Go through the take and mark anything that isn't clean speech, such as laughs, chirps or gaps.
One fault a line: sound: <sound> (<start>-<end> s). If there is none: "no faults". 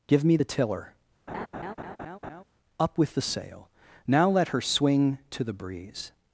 sound: laugh (1.3-2.4 s)